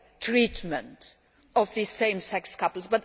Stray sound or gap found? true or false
false